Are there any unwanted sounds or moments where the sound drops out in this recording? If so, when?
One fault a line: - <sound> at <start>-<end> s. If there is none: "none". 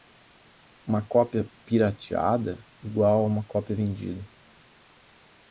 none